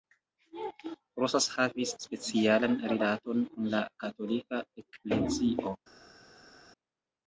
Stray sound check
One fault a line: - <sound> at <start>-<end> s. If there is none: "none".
none